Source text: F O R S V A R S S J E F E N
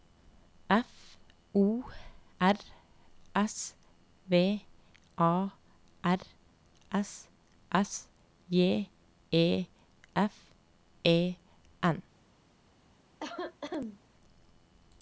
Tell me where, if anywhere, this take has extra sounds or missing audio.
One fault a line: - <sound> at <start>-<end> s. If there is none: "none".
- cough at 13.2-14.0 s